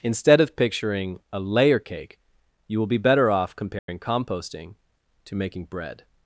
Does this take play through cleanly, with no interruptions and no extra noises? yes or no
no